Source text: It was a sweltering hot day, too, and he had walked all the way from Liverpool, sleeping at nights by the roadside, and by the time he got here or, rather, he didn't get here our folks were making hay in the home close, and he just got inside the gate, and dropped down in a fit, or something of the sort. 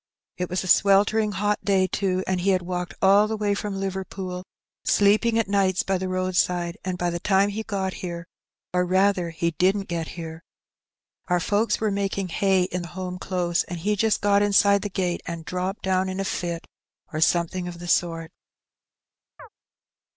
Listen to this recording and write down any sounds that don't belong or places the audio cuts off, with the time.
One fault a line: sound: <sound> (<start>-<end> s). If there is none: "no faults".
sound: chirp (19.4-19.5 s)